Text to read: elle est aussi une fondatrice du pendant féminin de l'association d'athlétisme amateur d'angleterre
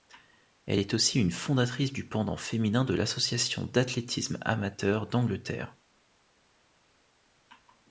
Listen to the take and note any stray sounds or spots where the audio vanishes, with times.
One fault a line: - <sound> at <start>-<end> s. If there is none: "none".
none